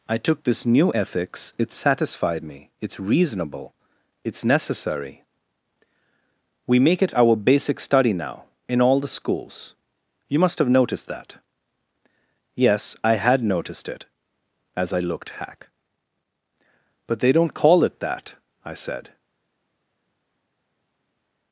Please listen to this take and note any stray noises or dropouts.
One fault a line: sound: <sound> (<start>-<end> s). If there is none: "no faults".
no faults